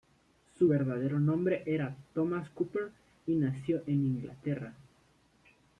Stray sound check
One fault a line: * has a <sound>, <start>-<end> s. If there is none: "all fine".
all fine